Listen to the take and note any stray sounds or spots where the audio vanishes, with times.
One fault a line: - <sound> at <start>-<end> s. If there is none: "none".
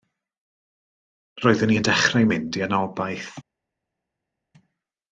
none